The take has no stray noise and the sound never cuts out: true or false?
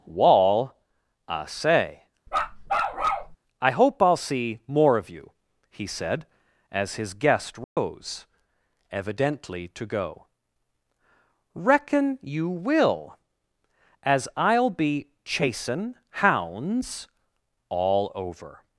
false